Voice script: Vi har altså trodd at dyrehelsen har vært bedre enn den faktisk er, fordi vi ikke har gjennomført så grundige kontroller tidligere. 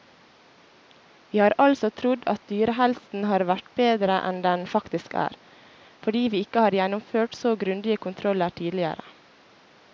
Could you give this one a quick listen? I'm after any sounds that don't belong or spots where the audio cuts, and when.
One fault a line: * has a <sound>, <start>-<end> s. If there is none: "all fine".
all fine